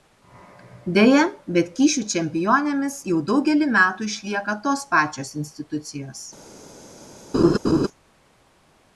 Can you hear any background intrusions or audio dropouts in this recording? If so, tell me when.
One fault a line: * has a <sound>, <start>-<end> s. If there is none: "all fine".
* has a laugh, 7.3-7.9 s